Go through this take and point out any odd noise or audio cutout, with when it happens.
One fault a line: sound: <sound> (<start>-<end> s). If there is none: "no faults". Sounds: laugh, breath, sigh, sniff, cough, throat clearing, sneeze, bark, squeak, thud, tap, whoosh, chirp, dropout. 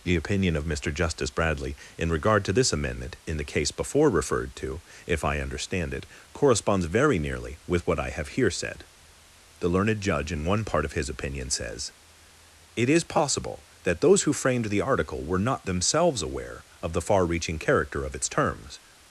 no faults